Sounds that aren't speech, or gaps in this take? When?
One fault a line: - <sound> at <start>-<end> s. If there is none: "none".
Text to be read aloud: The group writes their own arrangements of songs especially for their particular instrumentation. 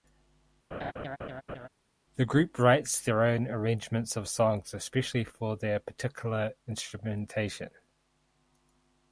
- laugh at 0.7-1.7 s